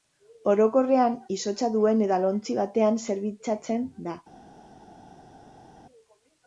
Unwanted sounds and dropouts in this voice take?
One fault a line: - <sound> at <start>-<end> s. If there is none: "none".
none